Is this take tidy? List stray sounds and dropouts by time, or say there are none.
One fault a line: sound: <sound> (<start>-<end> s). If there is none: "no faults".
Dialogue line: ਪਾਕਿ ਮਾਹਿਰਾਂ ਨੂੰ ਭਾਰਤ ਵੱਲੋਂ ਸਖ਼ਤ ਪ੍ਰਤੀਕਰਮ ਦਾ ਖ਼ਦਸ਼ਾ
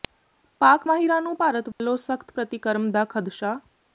sound: dropout (1.7-1.8 s)